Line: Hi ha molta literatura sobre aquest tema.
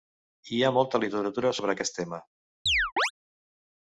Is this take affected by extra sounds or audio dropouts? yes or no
yes